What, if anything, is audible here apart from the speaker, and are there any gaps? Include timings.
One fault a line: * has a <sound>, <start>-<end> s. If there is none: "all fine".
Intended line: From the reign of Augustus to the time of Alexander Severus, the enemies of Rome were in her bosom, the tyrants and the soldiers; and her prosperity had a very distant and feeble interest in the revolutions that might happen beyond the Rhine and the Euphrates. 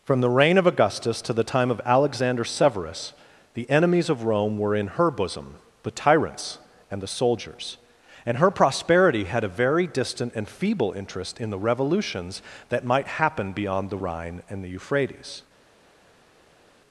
all fine